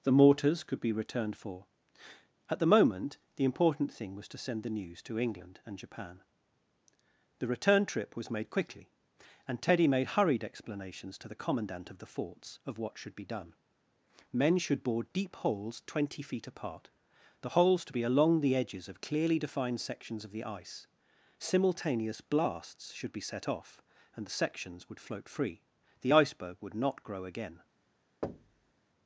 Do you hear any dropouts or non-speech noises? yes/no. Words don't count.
yes